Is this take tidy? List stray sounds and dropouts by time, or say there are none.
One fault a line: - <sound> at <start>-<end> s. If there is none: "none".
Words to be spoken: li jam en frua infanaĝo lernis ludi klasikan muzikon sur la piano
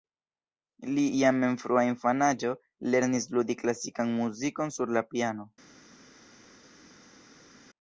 none